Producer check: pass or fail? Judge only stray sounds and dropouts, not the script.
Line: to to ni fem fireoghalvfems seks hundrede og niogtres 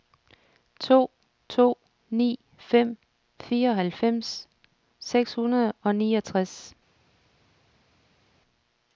pass